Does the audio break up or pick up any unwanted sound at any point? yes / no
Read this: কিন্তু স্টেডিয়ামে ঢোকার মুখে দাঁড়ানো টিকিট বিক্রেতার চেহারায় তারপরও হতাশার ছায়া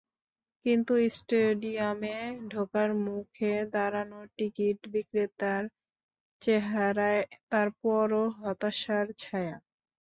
no